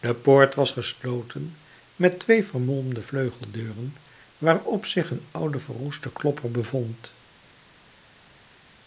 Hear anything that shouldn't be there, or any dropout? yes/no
no